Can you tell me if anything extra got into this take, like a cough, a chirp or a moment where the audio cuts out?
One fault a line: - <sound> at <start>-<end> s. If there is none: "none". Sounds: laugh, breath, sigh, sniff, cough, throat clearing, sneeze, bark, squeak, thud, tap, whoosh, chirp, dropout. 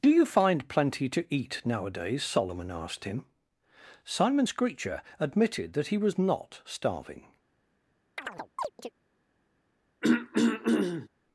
- chirp at 8.2-8.9 s
- throat clearing at 10.0-11.1 s